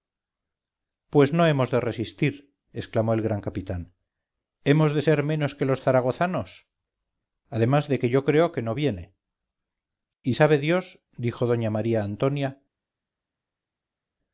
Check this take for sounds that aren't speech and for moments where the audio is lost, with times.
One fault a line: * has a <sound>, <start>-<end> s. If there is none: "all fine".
all fine